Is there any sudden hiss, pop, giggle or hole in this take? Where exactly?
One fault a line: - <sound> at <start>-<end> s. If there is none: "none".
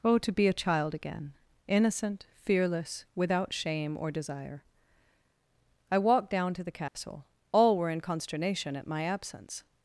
- dropout at 6.9-6.9 s